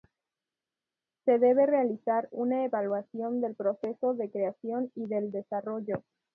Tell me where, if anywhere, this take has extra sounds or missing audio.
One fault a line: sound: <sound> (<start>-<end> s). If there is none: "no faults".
no faults